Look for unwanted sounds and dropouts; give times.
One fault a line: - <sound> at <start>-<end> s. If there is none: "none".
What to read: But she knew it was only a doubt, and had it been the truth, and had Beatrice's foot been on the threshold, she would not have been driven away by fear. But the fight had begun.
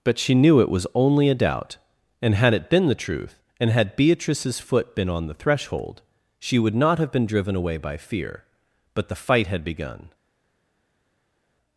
none